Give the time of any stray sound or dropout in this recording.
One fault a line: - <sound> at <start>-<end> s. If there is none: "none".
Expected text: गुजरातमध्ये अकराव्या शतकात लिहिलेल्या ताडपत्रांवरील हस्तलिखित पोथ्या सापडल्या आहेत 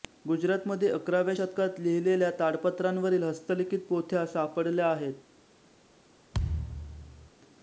- thud at 6.3-7.3 s